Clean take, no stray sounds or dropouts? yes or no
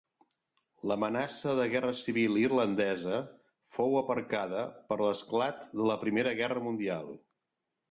yes